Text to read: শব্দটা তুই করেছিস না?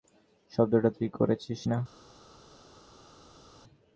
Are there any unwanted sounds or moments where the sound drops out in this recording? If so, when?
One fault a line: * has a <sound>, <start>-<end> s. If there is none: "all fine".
all fine